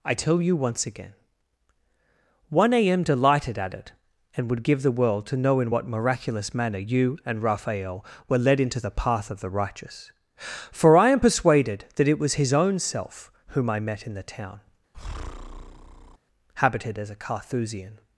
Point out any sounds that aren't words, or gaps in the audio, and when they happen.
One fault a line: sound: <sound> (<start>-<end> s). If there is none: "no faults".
sound: breath (14.9-16.2 s)